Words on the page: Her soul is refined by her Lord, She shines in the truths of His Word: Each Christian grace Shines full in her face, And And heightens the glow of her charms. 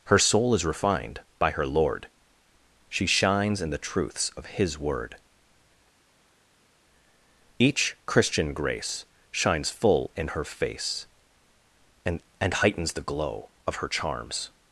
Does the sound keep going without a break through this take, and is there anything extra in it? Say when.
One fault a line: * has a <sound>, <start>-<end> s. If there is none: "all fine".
all fine